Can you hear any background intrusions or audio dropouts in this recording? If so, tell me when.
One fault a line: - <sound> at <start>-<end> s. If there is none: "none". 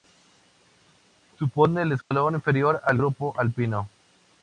- dropout at 2.0-2.1 s